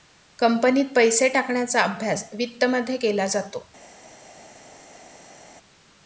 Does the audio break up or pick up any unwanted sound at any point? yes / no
no